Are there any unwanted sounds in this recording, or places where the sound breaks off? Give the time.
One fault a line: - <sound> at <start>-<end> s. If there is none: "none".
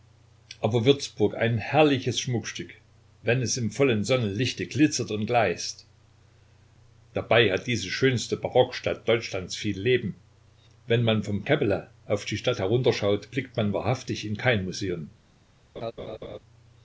- laugh at 15.8-16.4 s